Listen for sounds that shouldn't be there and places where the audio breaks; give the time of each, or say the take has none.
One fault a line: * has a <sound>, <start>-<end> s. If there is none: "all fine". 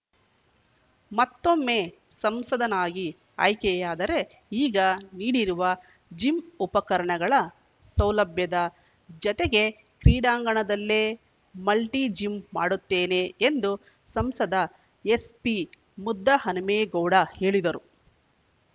all fine